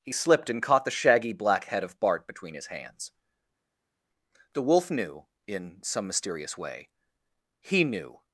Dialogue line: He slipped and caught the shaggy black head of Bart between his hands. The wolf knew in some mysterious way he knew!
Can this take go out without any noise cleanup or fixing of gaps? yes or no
yes